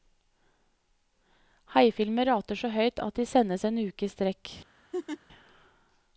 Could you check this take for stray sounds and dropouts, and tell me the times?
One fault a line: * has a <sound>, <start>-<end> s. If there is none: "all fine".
* has a laugh, 4.9-5.2 s